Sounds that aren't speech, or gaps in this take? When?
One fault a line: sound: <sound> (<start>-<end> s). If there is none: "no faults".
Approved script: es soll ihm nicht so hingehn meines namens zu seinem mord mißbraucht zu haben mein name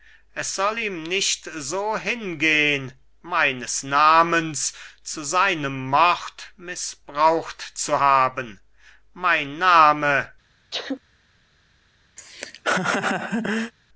sound: sneeze (10.7-11.0 s)
sound: laugh (12.2-13.7 s)